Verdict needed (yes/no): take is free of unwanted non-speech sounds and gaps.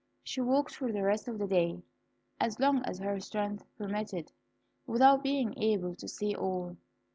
yes